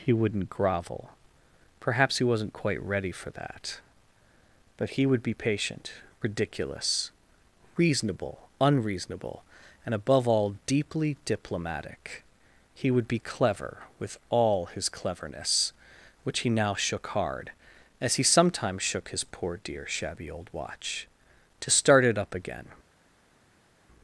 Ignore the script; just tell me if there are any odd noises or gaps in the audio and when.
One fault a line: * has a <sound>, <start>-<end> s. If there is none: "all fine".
all fine